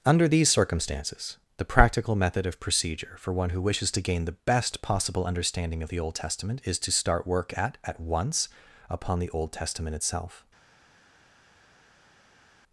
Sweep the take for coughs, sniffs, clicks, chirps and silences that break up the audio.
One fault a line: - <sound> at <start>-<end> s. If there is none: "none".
none